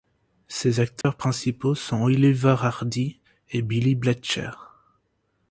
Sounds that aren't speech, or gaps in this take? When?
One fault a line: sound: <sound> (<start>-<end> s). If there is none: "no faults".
sound: dropout (1.0-1.0 s)